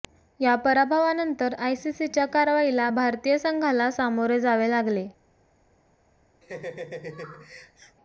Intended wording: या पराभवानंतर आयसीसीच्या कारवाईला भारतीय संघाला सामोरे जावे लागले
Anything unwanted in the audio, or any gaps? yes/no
yes